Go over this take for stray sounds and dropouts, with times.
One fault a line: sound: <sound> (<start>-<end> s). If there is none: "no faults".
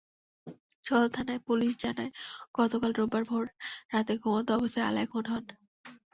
no faults